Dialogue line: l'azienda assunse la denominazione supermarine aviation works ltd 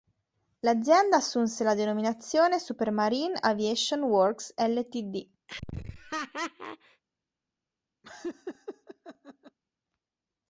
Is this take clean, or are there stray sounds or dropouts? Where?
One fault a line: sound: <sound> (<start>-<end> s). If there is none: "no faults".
sound: laugh (5.5-7.0 s)
sound: laugh (8.0-9.6 s)